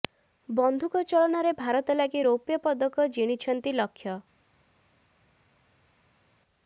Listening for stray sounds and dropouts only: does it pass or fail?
pass